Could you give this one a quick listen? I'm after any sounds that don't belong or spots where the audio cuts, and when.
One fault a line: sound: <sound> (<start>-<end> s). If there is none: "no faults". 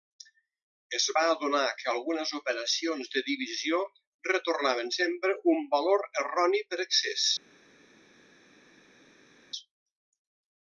no faults